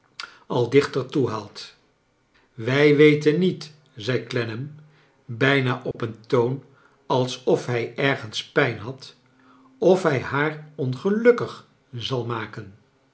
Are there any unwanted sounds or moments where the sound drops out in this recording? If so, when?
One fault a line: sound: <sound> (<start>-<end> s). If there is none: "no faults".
sound: dropout (5.9-5.9 s)